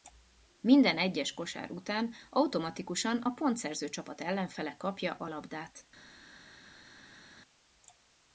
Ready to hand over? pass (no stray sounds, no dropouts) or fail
pass